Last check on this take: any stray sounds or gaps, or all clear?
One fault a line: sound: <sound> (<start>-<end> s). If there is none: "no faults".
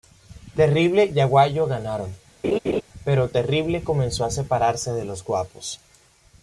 sound: laugh (2.4-2.8 s)